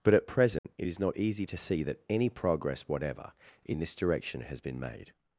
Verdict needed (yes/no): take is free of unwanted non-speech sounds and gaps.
no